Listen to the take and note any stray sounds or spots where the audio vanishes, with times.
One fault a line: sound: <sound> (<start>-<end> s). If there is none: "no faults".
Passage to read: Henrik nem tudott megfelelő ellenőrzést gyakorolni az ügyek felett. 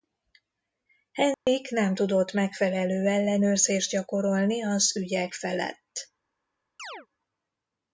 sound: dropout (1.3-1.5 s)
sound: chirp (6.8-7.1 s)